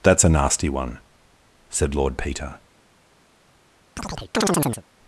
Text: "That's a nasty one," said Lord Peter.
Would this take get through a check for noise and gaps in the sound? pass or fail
fail